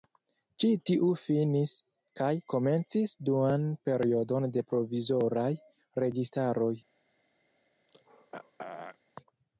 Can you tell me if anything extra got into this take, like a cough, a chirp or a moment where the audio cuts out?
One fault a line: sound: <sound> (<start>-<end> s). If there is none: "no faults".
sound: throat clearing (7.9-9.0 s)